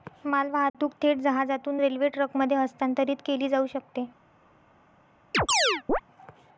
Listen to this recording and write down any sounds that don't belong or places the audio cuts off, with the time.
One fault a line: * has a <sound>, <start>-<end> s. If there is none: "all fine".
* has a dropout, 0.7-0.7 s
* has a chirp, 5.3-6.0 s